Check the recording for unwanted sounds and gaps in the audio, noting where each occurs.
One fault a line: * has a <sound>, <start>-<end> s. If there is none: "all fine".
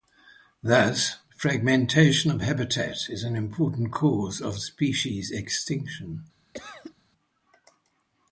* has a cough, 6.5-6.9 s